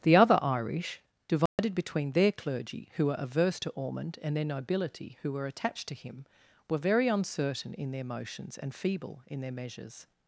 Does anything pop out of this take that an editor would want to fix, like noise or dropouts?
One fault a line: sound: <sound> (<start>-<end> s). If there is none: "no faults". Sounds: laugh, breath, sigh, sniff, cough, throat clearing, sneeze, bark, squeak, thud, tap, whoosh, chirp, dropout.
sound: dropout (1.5-1.6 s)